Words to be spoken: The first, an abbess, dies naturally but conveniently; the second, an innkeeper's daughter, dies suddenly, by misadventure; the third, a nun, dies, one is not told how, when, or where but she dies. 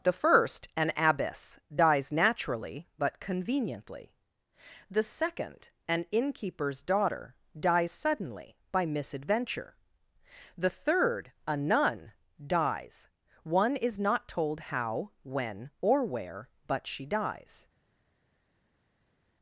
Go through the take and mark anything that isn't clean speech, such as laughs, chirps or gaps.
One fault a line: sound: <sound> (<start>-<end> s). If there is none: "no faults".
no faults